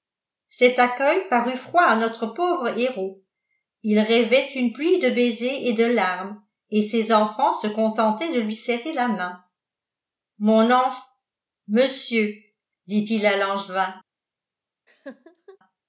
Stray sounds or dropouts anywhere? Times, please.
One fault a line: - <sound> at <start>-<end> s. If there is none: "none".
- laugh at 14.9-15.6 s